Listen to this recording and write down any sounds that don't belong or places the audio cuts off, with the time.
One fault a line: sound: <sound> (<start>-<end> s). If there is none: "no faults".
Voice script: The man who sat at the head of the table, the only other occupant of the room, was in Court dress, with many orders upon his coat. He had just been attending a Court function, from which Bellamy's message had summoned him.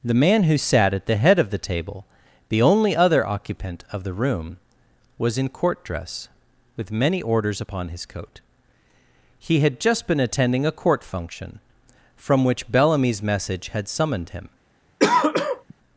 sound: throat clearing (15.0-15.7 s)